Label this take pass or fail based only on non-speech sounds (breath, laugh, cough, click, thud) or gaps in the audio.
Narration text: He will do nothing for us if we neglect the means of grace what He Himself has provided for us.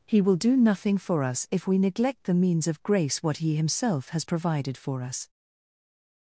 pass